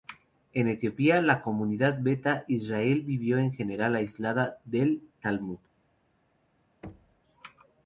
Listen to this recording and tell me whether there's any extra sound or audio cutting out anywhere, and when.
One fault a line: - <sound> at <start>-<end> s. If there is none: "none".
- thud at 6.8-7.2 s